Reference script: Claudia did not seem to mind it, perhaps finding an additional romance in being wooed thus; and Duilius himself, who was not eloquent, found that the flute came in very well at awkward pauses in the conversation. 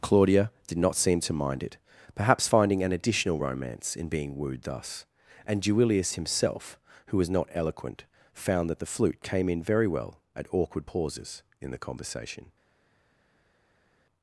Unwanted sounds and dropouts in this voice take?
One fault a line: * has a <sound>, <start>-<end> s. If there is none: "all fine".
all fine